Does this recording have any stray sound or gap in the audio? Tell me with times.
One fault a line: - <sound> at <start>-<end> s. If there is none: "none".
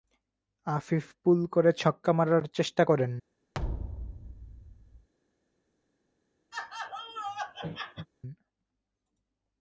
- thud at 3.5-5.1 s
- laugh at 6.5-8.1 s